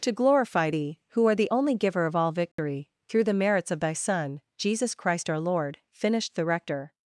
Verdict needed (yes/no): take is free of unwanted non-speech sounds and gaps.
no